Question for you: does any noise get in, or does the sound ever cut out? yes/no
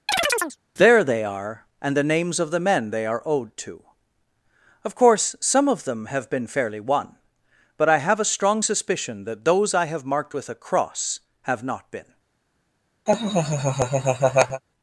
yes